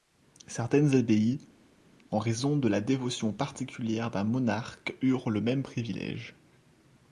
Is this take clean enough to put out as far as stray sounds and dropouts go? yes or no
yes